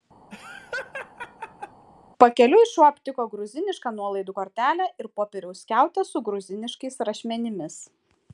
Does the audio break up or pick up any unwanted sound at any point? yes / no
yes